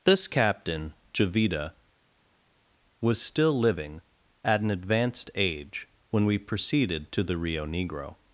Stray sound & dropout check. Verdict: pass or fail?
pass